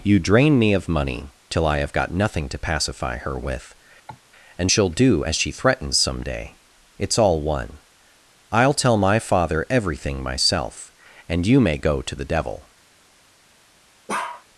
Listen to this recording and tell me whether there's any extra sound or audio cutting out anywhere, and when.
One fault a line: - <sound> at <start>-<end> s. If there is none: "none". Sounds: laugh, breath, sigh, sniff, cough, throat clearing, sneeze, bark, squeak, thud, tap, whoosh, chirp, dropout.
- cough at 4.1-4.2 s
- bark at 14.1-14.4 s